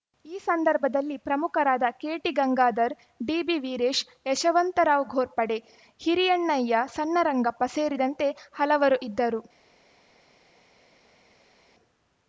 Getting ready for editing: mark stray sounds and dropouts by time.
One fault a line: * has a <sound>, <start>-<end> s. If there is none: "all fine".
all fine